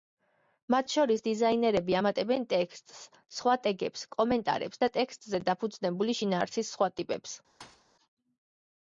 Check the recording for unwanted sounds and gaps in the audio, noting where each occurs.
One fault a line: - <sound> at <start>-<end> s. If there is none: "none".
- thud at 7.6-7.9 s